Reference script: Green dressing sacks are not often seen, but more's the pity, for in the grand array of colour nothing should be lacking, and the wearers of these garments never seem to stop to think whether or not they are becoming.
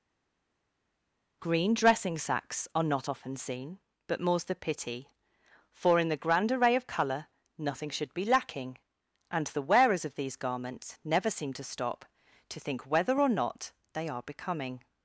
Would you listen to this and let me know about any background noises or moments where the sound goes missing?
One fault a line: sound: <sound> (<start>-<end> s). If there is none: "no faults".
no faults